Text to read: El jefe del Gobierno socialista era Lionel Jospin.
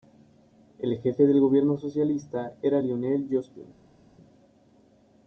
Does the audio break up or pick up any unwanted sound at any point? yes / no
no